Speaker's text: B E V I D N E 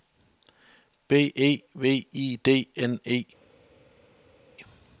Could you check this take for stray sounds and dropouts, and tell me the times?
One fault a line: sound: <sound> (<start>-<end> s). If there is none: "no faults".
no faults